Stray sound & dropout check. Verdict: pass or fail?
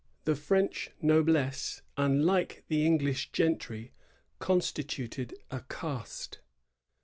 pass